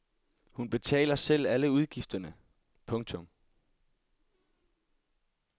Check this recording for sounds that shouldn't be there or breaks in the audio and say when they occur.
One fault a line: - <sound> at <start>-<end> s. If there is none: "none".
none